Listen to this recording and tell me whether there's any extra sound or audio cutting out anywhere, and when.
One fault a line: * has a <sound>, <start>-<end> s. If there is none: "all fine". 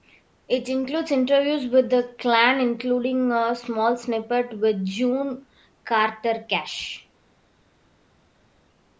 all fine